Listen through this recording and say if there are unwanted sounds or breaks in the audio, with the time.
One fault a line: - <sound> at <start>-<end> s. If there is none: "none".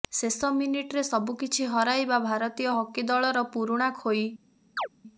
- chirp at 4.8-4.9 s